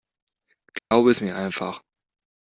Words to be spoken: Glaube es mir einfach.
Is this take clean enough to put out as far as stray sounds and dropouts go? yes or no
no